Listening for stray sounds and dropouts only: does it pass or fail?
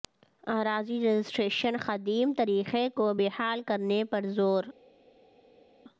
pass